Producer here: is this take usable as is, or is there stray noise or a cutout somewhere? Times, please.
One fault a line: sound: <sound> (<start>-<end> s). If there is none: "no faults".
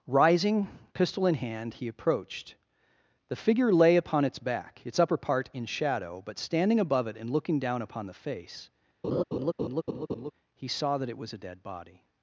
sound: laugh (9.0-10.3 s)